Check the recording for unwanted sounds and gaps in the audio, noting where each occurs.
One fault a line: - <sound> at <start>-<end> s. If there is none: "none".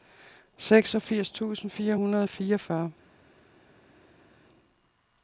none